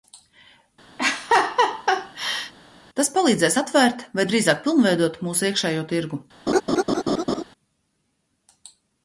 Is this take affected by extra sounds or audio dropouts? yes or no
yes